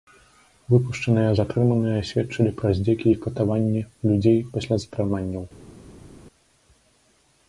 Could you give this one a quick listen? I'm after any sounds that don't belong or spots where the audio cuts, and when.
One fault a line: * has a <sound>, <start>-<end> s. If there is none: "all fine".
all fine